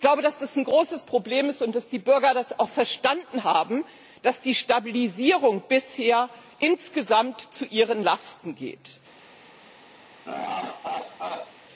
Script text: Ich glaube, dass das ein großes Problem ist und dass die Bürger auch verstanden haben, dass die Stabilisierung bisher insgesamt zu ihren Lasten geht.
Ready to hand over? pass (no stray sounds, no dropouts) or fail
fail